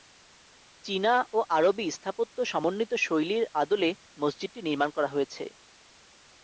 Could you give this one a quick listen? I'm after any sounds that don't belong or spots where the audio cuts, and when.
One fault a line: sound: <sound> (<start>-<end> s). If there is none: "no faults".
no faults